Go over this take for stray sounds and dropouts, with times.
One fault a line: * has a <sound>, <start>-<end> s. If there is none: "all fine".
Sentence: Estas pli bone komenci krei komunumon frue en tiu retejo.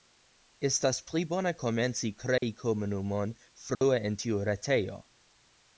* has a dropout, 2.4-2.4 s
* has a dropout, 3.7-3.8 s